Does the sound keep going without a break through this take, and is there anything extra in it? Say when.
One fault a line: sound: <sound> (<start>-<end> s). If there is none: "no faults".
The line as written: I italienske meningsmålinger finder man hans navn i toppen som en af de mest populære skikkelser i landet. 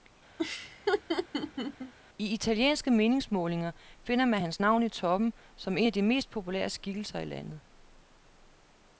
sound: laugh (0.4-1.9 s)